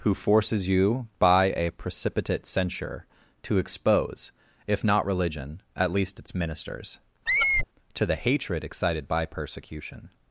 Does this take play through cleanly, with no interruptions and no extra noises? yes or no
no